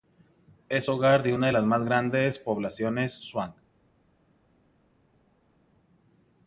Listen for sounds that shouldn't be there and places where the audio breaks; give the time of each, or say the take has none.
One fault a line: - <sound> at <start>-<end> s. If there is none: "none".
none